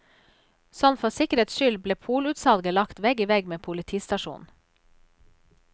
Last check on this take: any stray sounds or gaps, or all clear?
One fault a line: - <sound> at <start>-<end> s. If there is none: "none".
none